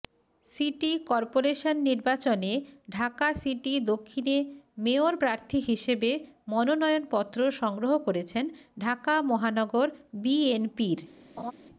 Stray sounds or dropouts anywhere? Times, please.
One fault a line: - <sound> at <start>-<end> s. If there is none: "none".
- laugh at 11.4-11.5 s